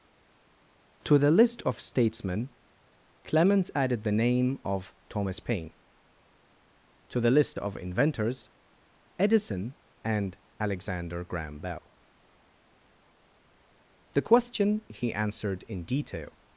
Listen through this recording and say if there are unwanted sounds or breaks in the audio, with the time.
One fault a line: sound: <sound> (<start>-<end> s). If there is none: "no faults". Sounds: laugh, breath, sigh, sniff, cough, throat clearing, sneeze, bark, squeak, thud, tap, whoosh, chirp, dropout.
no faults